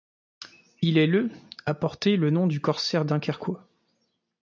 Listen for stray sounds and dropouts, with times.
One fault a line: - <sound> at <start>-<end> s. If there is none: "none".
none